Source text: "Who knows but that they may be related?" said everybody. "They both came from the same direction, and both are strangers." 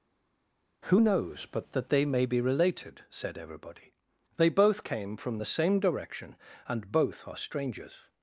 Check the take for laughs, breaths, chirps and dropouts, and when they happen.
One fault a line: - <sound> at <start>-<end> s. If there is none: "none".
none